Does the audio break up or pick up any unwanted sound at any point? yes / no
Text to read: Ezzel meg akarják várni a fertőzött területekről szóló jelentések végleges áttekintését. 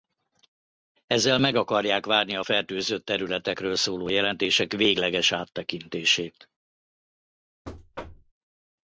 yes